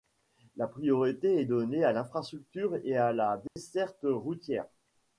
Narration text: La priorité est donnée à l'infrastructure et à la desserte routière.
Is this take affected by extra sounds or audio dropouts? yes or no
yes